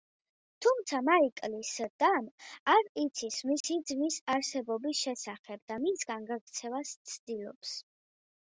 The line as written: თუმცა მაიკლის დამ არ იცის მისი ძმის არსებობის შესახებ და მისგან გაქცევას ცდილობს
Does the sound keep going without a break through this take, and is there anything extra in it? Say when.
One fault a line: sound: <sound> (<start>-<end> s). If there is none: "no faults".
sound: dropout (3.6-3.6 s)